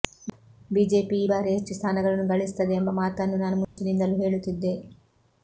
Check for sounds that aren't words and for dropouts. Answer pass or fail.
fail